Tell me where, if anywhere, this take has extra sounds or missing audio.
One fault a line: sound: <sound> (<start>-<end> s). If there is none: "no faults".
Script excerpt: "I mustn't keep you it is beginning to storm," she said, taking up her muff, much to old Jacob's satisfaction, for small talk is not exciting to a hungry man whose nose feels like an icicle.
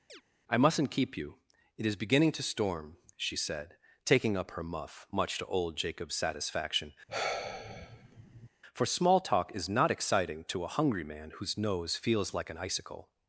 sound: chirp (0.1-0.2 s)
sound: sigh (7.1-8.5 s)